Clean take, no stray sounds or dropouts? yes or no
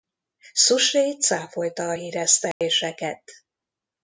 no